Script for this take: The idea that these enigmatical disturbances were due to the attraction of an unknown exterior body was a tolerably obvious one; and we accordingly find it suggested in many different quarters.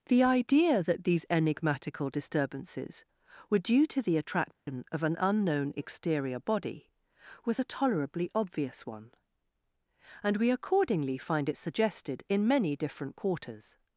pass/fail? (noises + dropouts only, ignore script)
fail